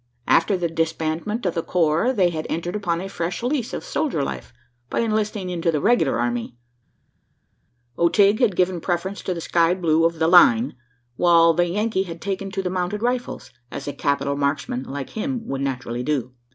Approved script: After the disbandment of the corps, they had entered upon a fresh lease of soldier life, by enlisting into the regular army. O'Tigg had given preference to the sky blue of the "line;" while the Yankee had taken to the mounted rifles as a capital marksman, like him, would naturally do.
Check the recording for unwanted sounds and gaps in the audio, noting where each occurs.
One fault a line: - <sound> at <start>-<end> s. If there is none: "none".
none